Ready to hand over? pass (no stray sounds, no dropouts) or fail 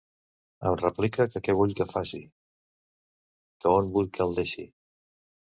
pass